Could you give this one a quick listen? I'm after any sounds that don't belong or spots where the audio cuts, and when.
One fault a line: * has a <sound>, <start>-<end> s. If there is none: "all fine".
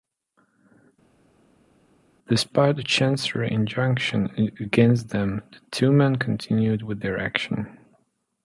all fine